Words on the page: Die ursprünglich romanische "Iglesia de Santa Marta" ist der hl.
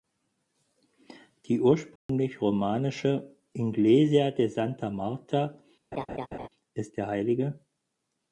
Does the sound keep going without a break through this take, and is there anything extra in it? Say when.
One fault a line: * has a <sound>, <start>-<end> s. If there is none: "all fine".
* has a dropout, 2.0-2.1 s
* has a laugh, 5.9-6.5 s